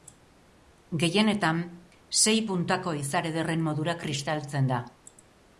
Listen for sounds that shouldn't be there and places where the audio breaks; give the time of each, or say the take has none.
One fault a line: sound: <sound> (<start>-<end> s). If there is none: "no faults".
no faults